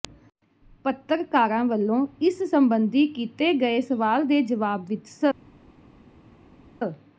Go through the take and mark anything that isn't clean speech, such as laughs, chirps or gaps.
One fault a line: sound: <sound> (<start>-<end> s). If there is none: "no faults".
no faults